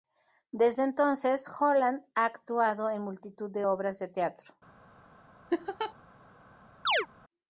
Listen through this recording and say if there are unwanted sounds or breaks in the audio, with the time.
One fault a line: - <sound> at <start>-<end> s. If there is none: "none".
- laugh at 5.5-5.9 s
- chirp at 6.9-7.1 s